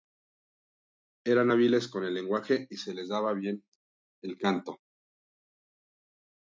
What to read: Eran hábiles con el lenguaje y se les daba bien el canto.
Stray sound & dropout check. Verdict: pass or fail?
pass